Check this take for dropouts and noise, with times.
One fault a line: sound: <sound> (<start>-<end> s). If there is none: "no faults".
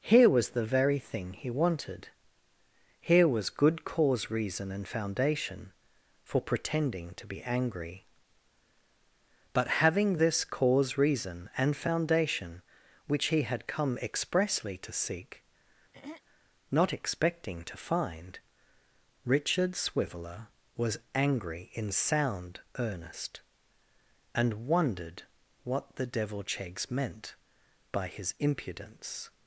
sound: throat clearing (15.9-16.2 s)